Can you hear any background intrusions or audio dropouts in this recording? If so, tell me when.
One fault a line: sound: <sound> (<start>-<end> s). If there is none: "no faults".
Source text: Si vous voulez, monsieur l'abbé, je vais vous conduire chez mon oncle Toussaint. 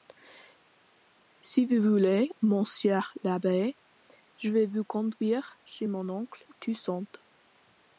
no faults